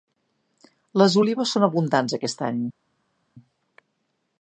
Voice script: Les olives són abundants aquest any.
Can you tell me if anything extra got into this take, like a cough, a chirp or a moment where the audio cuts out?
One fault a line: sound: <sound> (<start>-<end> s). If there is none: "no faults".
no faults